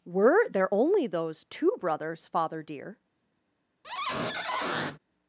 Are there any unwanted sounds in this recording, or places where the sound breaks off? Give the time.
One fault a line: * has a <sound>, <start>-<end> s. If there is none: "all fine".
* has a squeak, 3.8-5.0 s